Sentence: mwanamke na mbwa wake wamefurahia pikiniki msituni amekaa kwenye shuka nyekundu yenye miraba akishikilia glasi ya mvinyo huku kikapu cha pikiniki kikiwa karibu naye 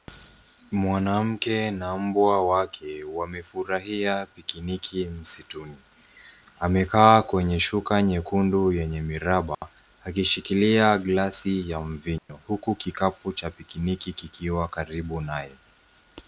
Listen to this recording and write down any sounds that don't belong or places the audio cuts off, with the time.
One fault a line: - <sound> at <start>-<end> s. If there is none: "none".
- dropout at 9.5-9.6 s
- dropout at 12.2-12.3 s